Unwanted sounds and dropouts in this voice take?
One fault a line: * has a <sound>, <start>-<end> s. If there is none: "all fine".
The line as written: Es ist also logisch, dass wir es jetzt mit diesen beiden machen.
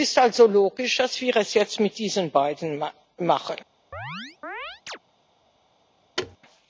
* has a chirp, 3.9-5.0 s
* has a thud, 6.2-6.4 s